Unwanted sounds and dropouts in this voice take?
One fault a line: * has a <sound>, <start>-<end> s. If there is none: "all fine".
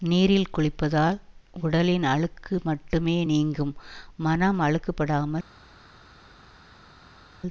all fine